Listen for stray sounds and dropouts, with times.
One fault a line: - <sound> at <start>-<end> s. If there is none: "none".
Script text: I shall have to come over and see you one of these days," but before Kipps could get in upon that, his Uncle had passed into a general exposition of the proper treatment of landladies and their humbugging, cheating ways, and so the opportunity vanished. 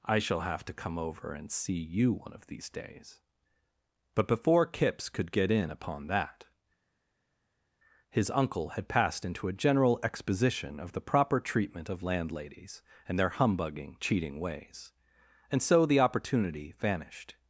none